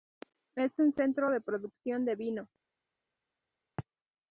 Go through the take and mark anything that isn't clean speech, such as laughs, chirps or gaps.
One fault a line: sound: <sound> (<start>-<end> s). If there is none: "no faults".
no faults